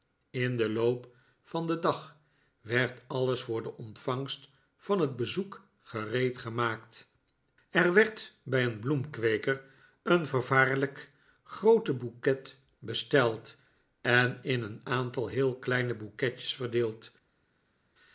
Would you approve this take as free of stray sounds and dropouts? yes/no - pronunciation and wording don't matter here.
yes